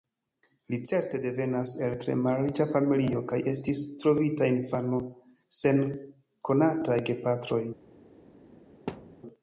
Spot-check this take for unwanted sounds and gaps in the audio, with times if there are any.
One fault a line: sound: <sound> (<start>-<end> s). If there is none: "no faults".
sound: thud (8.9-9.2 s)